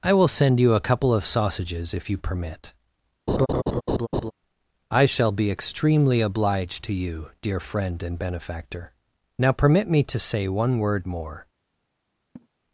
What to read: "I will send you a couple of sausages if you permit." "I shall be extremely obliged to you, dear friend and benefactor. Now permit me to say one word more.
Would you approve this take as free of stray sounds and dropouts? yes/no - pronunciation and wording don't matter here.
no